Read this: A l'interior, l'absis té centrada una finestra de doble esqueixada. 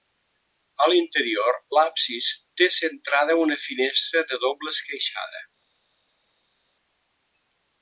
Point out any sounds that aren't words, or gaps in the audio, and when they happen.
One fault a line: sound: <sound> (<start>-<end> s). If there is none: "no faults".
no faults